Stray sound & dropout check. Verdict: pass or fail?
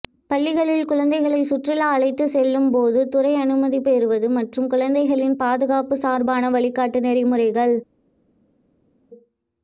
pass